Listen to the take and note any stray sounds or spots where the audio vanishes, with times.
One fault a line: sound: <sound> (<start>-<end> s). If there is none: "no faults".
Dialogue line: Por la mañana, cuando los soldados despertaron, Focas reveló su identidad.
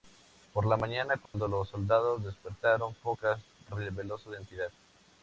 sound: dropout (1.3-1.3 s)